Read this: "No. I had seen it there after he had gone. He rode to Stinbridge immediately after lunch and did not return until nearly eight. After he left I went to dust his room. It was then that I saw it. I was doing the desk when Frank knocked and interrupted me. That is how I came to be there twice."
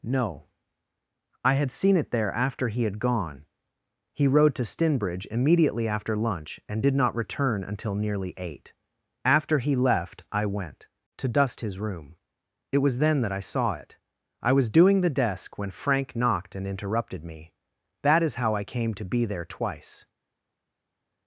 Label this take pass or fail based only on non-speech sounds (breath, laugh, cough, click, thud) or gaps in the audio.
pass